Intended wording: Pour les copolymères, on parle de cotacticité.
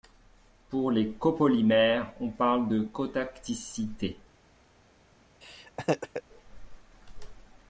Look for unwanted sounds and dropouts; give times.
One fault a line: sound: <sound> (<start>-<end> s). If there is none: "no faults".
sound: laugh (5.4-6.2 s)